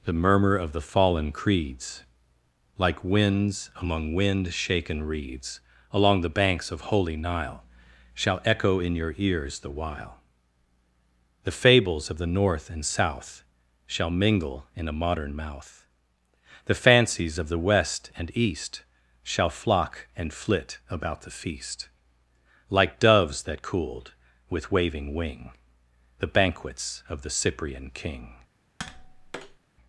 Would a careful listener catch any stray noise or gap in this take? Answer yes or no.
yes